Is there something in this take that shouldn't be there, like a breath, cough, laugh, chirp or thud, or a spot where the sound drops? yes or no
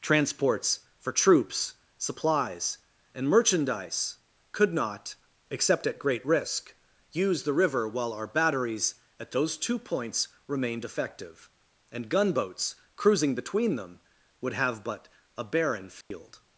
yes